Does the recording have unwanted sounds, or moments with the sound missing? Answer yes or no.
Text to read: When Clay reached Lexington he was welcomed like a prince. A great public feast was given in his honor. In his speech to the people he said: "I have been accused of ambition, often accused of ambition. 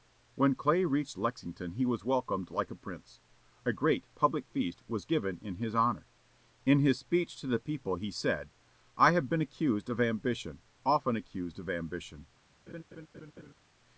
yes